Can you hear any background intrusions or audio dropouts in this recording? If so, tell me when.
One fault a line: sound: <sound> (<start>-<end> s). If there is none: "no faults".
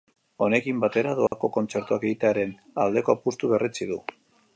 sound: dropout (1.3-1.3 s)